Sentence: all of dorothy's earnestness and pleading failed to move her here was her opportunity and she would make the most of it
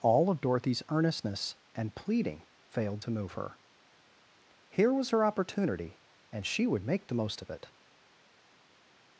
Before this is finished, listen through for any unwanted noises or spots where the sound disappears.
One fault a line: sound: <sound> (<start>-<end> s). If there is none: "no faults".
no faults